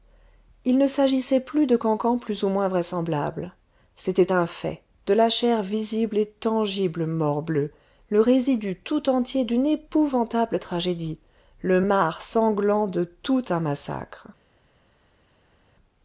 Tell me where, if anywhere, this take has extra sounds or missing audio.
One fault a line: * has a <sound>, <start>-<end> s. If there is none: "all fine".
all fine